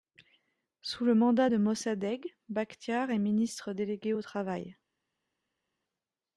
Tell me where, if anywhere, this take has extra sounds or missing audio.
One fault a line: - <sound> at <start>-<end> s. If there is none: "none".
none